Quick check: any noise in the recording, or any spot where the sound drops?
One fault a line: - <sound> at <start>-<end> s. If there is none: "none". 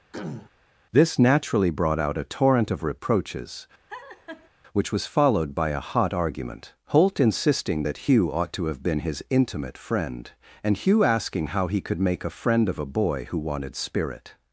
- throat clearing at 0.1-0.5 s
- laugh at 3.9-4.5 s